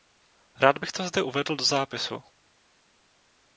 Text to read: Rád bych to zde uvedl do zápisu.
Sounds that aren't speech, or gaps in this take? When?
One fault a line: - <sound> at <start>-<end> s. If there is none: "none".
none